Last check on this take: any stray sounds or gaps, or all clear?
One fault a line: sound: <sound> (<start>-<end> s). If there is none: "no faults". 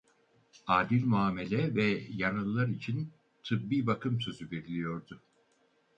no faults